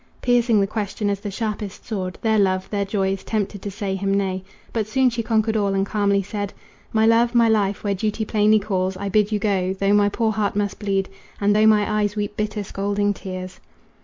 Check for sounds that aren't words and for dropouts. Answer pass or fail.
pass